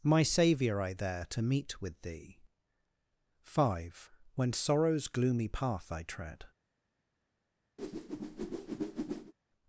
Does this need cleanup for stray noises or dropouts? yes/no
yes